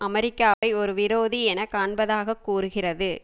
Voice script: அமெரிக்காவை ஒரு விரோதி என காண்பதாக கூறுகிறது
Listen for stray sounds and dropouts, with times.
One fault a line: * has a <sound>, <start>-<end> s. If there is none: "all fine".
* has a dropout, 0.5-0.6 s